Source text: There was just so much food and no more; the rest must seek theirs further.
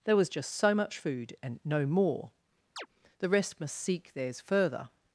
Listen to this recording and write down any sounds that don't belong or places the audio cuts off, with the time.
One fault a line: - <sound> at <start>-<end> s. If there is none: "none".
- chirp at 2.8-2.9 s